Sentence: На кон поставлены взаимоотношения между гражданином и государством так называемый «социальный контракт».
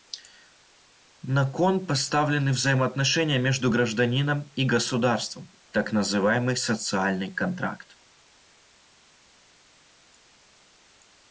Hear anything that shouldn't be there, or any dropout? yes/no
no